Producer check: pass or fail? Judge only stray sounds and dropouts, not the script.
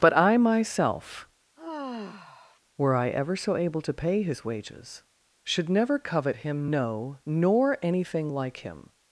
fail